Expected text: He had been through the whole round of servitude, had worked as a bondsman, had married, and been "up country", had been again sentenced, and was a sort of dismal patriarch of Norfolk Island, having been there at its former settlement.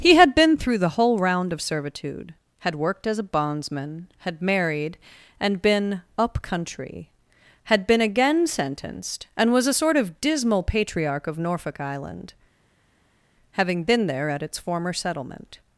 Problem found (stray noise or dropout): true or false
false